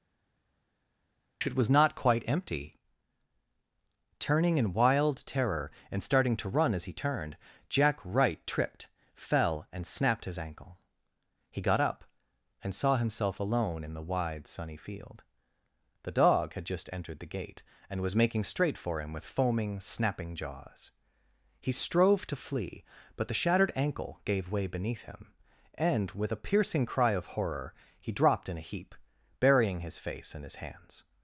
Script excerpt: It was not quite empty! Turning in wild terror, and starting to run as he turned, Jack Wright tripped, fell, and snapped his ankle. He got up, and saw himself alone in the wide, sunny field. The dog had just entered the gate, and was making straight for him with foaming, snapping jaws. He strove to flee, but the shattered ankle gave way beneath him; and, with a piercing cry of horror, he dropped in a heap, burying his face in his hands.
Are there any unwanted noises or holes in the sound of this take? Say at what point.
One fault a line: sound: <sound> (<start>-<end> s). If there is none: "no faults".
no faults